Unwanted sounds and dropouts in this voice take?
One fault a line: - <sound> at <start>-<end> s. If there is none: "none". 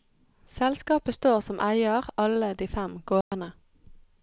- dropout at 3.2-3.3 s